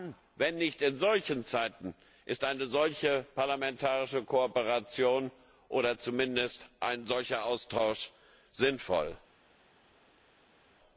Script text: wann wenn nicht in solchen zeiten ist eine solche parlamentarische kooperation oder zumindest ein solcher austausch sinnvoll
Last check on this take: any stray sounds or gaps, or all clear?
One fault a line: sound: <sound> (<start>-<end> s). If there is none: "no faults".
no faults